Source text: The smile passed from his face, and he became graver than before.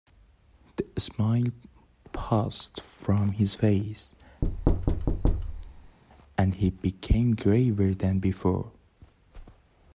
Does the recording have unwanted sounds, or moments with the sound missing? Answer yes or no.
yes